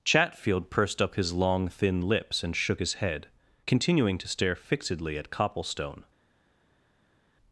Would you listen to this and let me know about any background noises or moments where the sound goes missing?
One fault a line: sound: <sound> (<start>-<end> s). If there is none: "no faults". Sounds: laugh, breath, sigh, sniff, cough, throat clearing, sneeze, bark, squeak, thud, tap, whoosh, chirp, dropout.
no faults